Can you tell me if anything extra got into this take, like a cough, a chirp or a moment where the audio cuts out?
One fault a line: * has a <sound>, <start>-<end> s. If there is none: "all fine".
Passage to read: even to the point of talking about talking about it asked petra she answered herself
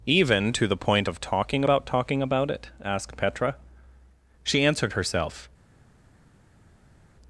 all fine